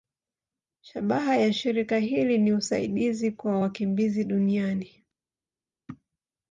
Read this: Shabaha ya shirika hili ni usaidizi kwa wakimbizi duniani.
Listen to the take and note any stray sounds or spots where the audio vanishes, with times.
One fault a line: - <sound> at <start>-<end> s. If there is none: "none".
none